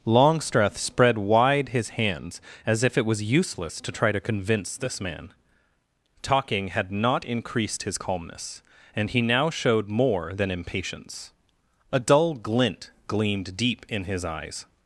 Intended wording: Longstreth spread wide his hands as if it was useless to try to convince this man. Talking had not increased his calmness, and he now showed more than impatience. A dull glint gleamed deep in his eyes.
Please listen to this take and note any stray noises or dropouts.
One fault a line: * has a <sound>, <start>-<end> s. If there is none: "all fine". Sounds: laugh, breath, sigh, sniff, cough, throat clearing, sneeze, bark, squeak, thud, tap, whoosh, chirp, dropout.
all fine